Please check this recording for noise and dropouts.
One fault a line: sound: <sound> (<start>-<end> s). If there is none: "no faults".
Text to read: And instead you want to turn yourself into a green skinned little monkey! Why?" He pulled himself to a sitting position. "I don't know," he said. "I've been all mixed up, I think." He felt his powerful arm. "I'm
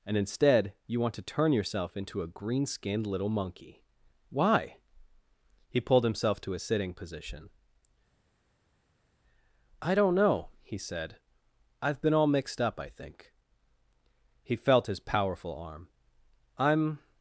no faults